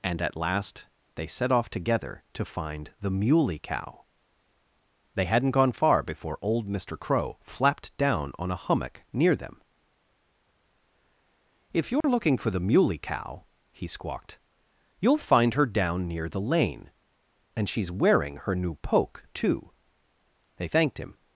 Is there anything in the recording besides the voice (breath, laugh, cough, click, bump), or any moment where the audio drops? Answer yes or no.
yes